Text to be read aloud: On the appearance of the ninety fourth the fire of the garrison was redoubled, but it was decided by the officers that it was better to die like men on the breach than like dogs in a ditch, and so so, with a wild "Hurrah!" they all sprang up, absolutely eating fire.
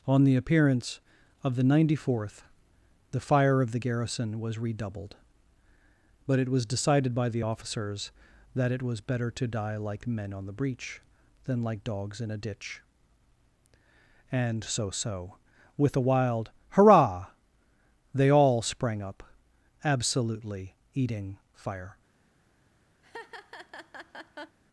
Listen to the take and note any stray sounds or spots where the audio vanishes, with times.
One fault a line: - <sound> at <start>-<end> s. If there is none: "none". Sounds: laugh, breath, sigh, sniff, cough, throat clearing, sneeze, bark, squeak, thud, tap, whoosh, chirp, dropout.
- laugh at 23.0-24.6 s